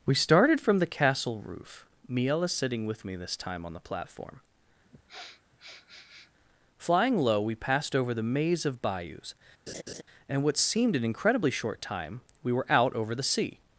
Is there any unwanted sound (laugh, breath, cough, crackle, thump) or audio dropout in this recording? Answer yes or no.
yes